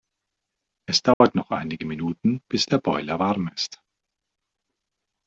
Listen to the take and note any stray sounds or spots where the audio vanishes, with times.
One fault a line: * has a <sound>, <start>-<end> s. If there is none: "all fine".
* has a dropout, 1.1-1.2 s